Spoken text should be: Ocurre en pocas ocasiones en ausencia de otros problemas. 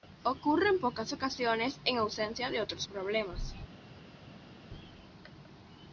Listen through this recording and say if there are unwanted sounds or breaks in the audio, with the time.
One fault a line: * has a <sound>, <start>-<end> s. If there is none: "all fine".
all fine